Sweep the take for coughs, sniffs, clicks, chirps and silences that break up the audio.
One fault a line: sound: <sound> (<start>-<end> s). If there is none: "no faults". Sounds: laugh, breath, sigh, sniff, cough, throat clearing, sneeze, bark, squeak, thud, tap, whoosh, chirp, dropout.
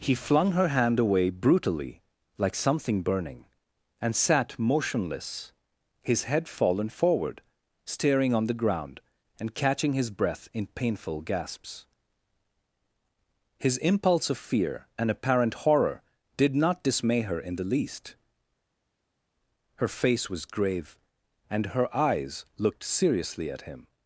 no faults